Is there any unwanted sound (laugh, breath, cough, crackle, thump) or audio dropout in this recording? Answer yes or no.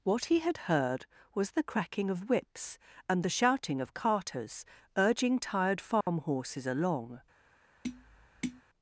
yes